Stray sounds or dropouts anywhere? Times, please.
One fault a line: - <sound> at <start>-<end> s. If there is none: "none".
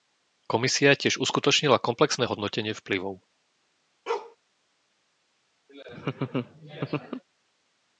- bark at 4.1-4.4 s
- laugh at 5.7-7.2 s